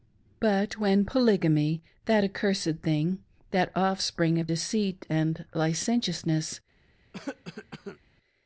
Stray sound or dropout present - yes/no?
yes